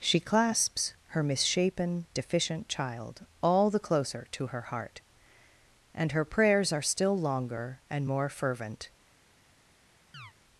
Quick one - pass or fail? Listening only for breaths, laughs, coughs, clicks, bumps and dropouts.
fail